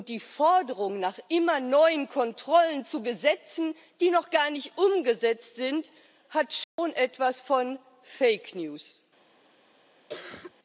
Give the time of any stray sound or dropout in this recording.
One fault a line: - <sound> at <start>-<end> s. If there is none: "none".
- dropout at 6.6-6.8 s
- cough at 10.1-10.5 s